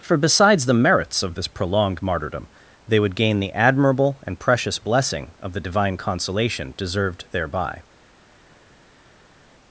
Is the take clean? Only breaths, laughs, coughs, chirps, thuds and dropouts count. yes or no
yes